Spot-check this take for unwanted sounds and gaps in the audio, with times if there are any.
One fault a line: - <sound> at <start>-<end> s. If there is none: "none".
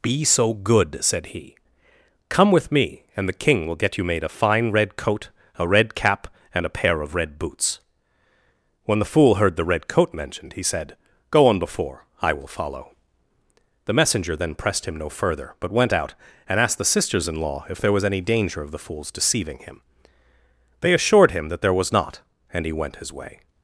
none